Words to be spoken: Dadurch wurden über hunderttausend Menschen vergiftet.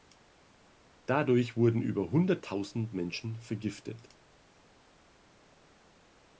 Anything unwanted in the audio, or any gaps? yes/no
no